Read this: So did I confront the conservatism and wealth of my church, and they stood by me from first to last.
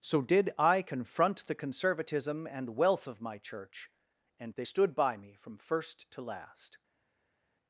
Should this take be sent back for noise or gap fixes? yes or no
no